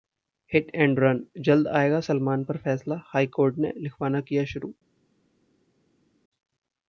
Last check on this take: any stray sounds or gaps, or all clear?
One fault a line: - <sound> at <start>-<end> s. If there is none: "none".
none